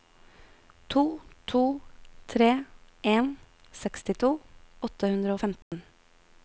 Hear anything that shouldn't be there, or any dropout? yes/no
yes